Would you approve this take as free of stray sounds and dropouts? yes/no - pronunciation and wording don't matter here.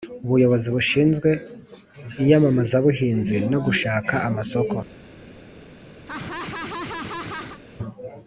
no